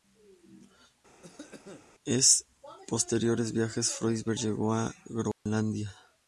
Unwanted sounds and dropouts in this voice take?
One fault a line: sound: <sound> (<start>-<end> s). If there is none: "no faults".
sound: cough (1.2-1.9 s)
sound: dropout (5.3-5.5 s)